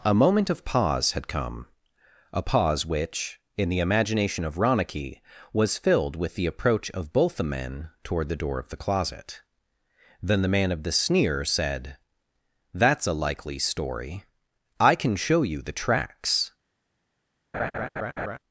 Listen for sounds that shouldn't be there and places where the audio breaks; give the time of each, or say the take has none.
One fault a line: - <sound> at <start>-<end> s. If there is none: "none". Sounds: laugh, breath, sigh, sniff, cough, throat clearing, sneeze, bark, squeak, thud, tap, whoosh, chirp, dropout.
- laugh at 17.5-18.4 s